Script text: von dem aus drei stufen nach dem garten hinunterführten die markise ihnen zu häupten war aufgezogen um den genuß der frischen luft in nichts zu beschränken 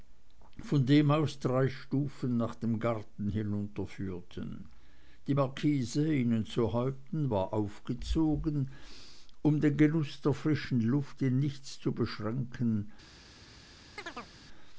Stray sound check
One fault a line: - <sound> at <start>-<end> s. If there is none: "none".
- chirp at 14.0-14.3 s